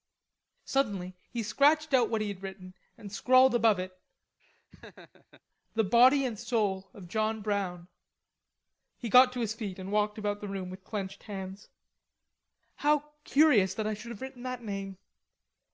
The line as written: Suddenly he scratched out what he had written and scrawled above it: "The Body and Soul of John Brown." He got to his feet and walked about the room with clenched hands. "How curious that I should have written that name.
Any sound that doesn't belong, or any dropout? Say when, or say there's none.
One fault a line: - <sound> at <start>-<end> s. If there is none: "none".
- laugh at 4.4-5.4 s